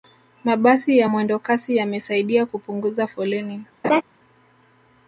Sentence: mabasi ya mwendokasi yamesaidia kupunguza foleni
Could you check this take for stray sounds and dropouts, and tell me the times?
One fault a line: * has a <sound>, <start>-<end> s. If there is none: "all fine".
* has a laugh, 3.8-4.0 s